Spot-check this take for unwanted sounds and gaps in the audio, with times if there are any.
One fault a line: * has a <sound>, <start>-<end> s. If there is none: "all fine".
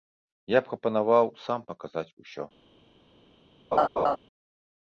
* has a laugh, 3.7-4.2 s